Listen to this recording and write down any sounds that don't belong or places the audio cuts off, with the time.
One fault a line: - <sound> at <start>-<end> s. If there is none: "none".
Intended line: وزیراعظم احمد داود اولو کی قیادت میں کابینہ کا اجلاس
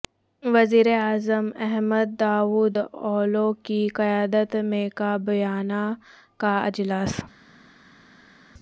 none